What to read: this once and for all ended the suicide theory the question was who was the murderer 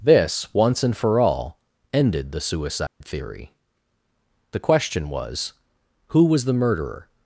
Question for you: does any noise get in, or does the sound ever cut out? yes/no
yes